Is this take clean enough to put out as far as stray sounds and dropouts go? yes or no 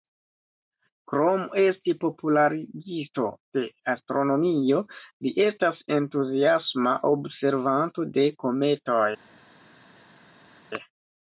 yes